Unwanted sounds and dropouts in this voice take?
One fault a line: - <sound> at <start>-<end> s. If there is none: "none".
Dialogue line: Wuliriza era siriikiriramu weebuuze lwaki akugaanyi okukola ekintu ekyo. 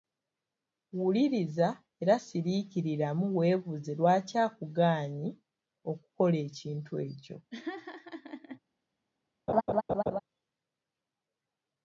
- laugh at 7.5-8.6 s
- laugh at 9.5-10.2 s